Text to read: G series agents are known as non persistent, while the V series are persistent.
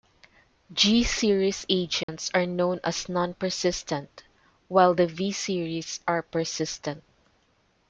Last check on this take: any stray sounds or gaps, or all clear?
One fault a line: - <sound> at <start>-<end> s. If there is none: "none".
- dropout at 2.0-2.1 s